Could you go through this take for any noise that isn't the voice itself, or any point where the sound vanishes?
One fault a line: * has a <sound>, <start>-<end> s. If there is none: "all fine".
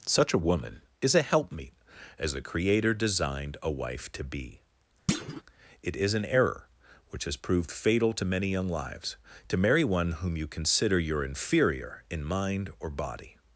* has a thud, 5.1-5.4 s